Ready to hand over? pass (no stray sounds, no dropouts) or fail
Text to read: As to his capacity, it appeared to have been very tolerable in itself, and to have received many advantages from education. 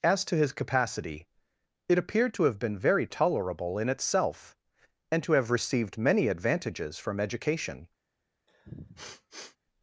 fail